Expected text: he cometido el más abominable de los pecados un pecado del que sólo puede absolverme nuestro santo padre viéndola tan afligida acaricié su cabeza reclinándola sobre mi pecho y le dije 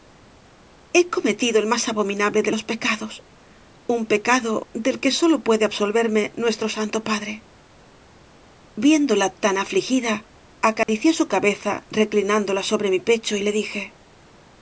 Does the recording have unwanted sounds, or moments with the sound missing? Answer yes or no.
yes